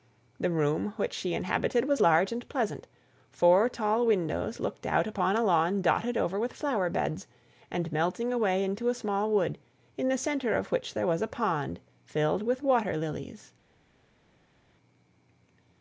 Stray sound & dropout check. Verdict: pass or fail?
pass